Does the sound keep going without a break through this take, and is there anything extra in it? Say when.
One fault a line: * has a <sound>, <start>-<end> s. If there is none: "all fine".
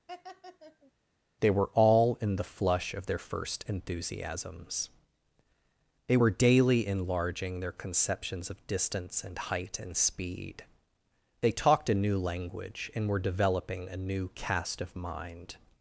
* has a laugh, 0.1-0.9 s